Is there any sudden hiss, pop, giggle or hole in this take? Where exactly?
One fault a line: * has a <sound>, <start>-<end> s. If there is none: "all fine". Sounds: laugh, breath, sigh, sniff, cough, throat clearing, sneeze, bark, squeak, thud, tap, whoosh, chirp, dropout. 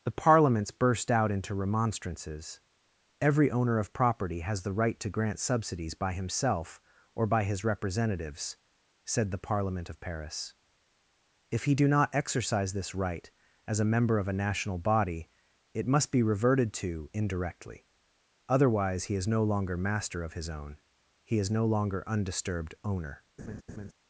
* has a laugh, 23.4-23.9 s